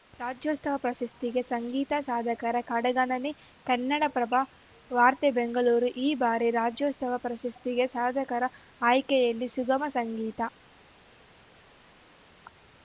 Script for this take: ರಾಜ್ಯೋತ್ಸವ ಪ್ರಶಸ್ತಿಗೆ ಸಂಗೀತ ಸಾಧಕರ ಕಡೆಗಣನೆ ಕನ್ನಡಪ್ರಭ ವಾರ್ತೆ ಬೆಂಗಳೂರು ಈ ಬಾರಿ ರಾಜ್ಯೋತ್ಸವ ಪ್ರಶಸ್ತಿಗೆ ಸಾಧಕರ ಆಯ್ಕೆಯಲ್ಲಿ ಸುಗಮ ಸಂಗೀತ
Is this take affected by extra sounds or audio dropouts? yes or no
no